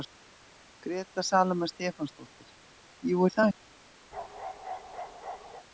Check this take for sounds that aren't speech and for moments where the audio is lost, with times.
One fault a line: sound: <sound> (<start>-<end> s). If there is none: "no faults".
sound: bark (4.1-5.7 s)